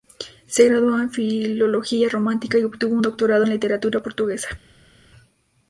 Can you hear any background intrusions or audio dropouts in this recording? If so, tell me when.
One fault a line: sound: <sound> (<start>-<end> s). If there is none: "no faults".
no faults